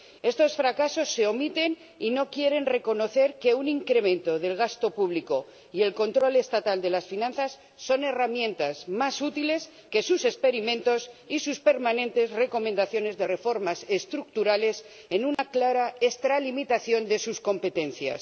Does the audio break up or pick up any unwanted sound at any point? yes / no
yes